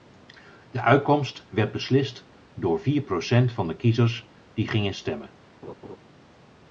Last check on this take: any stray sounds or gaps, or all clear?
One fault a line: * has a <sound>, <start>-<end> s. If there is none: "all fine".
* has a laugh, 5.6-6.0 s